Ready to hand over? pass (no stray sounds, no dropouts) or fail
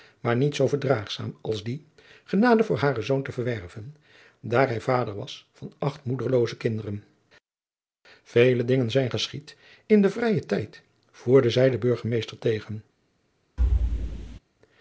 fail